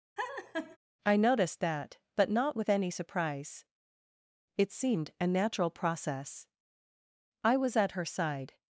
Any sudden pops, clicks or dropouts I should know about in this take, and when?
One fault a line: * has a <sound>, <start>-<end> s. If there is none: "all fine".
* has a laugh, 0.2-0.8 s